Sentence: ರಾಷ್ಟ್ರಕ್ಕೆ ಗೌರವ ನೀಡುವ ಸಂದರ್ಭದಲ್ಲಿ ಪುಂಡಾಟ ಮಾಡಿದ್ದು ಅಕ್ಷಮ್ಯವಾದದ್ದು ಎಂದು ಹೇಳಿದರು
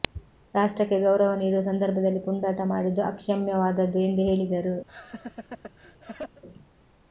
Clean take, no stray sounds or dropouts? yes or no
no